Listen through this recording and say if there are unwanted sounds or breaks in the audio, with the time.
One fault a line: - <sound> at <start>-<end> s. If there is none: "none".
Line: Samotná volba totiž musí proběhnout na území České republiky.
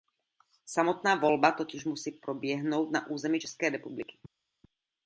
none